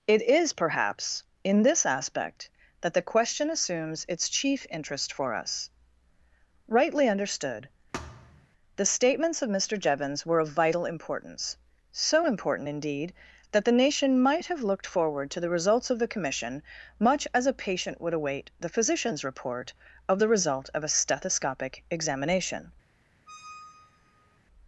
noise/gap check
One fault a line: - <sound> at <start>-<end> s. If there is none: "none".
- thud at 7.9-8.5 s
- squeak at 23.3-24.4 s